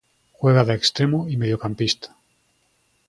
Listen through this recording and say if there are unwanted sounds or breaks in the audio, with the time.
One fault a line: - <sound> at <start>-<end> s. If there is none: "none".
none